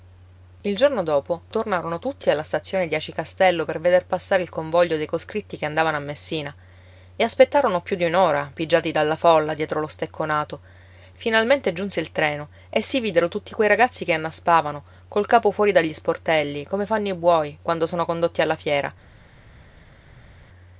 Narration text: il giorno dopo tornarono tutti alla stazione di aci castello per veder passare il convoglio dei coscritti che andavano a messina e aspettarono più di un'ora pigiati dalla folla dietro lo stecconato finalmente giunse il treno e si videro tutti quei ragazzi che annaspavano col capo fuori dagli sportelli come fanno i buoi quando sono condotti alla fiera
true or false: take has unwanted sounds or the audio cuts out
false